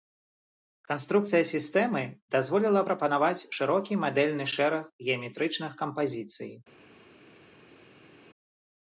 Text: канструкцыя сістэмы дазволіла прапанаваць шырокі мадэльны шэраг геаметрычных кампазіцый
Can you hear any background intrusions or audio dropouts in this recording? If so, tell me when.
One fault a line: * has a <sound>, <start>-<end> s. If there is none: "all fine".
all fine